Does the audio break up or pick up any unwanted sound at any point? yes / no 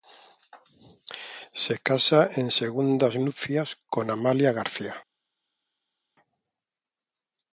no